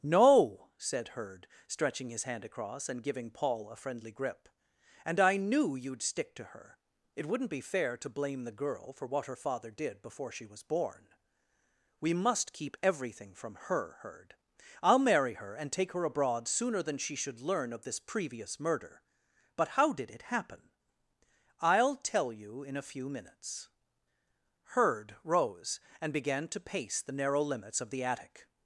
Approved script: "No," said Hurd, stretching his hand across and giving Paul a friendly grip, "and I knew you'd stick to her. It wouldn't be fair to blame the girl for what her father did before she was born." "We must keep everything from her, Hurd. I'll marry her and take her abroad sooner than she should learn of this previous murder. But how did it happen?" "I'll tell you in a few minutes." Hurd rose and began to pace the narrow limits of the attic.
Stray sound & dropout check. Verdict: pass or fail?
pass